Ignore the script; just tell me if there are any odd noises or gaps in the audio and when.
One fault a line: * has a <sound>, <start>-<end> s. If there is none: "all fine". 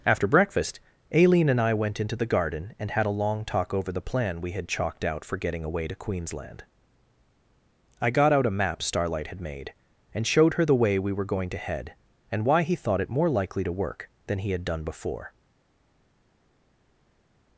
all fine